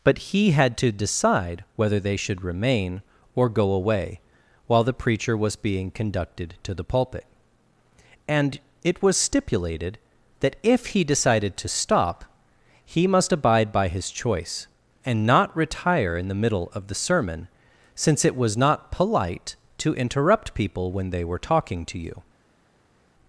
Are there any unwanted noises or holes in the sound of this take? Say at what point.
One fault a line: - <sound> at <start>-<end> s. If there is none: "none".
none